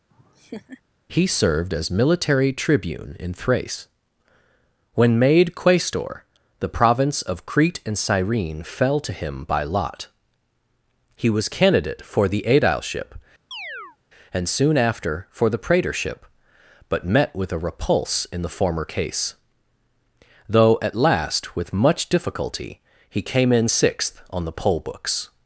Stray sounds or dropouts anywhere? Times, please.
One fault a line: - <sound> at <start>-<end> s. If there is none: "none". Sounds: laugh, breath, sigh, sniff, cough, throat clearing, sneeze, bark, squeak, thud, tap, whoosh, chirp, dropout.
- laugh at 0.1-0.8 s
- chirp at 13.5-14.0 s